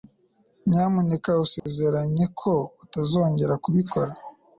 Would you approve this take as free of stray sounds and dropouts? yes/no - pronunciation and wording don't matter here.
no